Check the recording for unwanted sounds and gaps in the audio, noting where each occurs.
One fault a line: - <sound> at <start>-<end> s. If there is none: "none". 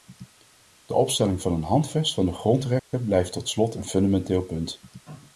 - dropout at 2.8-2.9 s